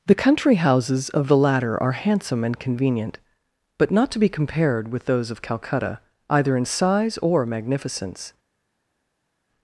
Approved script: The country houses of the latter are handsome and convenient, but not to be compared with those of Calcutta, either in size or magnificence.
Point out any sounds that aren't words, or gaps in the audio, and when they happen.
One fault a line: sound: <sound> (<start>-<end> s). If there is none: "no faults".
no faults